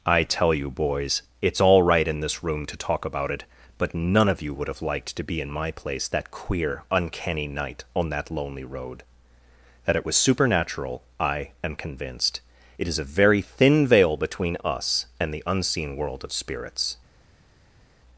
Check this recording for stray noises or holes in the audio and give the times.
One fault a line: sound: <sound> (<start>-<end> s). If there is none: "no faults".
no faults